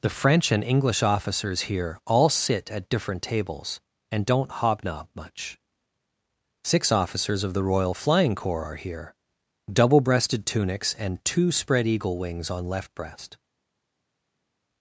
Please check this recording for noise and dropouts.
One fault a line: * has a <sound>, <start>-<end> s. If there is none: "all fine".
all fine